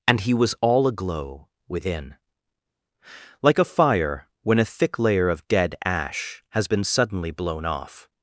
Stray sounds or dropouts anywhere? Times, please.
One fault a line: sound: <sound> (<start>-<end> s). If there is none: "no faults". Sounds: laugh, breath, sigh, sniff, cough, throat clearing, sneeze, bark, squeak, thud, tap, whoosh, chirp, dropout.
no faults